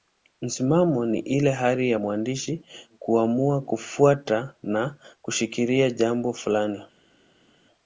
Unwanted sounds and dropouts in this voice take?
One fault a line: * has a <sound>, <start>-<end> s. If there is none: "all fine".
all fine